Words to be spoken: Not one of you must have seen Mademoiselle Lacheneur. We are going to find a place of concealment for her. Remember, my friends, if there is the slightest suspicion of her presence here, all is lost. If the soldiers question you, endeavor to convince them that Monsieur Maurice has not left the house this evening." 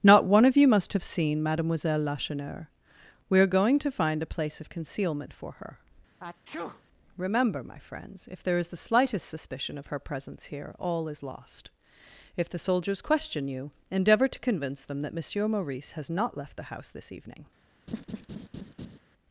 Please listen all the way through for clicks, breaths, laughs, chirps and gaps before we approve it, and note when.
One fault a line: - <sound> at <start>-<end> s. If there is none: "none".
- sneeze at 6.2-6.8 s
- laugh at 17.9-19.0 s